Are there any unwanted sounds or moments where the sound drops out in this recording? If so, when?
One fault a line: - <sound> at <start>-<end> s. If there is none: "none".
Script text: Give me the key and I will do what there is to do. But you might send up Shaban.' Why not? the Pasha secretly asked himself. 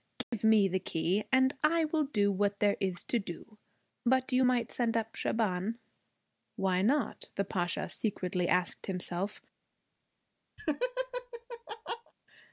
- dropout at 0.2-0.3 s
- laugh at 10.6-12.1 s